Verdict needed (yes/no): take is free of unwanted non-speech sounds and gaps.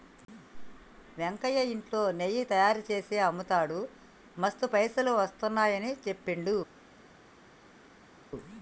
yes